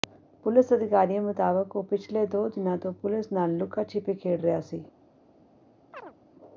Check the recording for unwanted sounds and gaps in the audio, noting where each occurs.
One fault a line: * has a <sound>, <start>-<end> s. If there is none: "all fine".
* has a chirp, 5.9-6.1 s